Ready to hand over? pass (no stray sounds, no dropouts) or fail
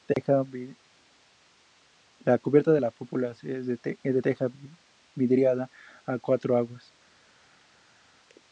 pass